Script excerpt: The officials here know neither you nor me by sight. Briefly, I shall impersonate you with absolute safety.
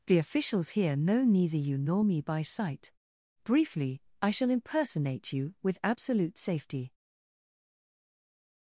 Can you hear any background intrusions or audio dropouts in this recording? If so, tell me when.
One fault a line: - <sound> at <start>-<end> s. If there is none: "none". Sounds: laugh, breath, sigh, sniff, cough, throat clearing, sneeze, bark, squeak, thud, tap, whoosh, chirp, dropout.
none